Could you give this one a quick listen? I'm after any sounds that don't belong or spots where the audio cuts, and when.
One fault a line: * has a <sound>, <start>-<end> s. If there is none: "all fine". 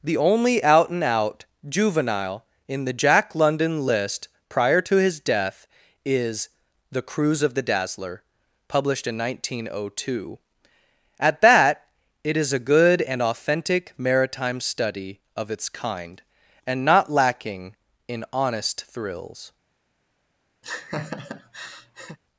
* has a laugh, 20.6-22.2 s